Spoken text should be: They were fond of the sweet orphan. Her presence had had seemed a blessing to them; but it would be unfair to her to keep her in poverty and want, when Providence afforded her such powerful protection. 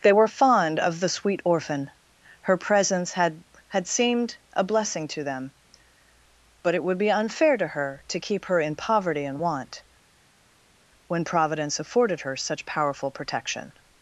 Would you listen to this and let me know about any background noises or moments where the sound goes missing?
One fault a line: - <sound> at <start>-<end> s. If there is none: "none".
none